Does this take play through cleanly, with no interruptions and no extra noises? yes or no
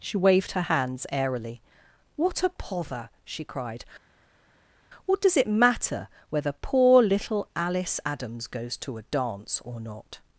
yes